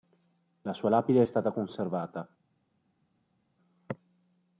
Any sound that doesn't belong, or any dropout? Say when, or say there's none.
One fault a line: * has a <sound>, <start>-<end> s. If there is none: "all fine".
all fine